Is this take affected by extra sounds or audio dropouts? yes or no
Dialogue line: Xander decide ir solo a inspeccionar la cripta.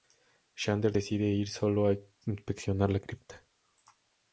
no